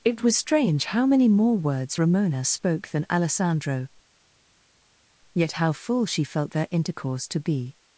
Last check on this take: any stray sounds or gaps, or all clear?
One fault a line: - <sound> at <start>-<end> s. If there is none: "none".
none